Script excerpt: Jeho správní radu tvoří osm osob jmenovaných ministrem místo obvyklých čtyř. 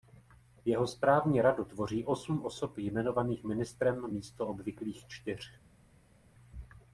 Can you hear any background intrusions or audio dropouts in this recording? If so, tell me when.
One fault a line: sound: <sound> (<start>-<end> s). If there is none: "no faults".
no faults